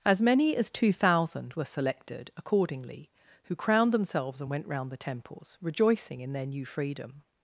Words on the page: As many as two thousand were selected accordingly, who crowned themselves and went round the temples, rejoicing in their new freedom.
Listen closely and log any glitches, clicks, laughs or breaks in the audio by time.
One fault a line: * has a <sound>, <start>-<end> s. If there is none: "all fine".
all fine